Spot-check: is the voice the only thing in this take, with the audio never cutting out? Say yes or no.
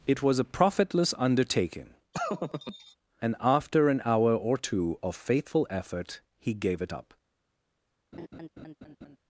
no